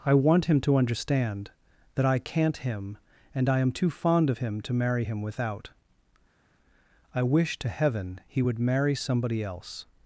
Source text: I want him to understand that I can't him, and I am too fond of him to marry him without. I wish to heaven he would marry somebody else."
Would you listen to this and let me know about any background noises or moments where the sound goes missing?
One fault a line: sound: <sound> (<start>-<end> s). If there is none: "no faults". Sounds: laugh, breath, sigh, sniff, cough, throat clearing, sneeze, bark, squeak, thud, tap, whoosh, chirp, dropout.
no faults